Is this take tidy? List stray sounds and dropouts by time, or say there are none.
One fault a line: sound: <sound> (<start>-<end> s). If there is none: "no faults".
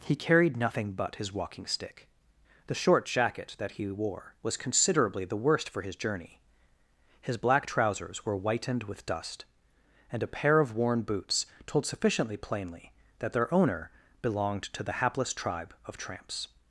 no faults